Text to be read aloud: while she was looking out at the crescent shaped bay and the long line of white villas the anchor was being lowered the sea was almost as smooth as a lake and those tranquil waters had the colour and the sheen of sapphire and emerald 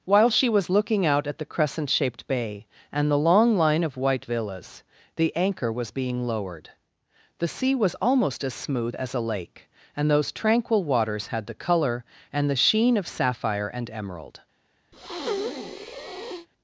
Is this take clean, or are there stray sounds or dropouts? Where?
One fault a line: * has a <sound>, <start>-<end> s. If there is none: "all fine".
* has a breath, 14.9-16.5 s